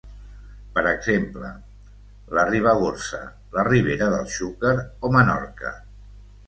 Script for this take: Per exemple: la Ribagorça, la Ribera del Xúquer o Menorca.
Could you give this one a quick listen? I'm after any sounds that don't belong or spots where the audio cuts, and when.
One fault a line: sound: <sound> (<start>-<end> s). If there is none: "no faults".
no faults